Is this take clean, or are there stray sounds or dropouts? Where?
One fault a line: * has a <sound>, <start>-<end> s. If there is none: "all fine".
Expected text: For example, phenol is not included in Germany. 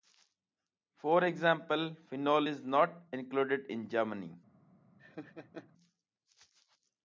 * has a laugh, 5.0-5.7 s